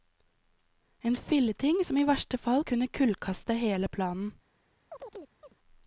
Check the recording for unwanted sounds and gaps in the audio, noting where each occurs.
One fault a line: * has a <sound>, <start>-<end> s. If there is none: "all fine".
* has a chirp, 4.9-5.5 s